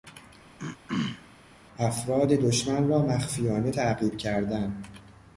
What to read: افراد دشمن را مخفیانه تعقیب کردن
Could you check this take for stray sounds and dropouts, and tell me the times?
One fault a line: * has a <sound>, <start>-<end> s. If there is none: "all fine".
* has a throat clearing, 0.6-1.3 s